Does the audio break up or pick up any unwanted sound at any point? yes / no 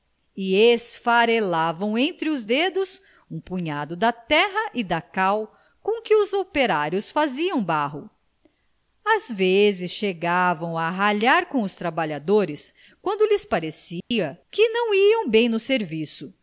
yes